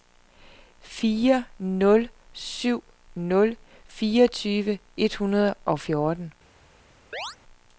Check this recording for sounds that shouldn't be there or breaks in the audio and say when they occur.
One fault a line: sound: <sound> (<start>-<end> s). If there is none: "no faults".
sound: chirp (7.1-7.4 s)